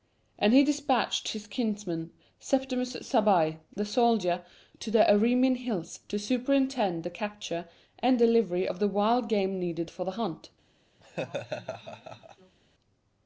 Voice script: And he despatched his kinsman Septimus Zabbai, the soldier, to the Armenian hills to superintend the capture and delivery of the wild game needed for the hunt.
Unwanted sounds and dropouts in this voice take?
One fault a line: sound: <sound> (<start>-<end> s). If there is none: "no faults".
sound: laugh (11.0-12.6 s)